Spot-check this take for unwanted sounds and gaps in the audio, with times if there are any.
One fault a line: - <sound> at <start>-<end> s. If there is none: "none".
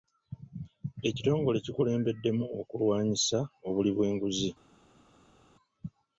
none